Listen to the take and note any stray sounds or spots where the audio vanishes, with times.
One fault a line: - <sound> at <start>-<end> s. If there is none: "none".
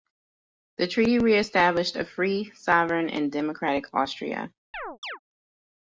- chirp at 4.7-5.2 s